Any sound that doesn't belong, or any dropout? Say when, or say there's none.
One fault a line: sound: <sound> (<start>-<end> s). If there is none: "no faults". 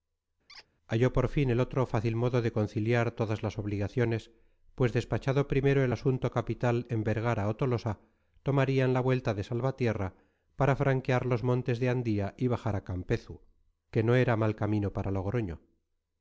sound: squeak (0.5-0.7 s)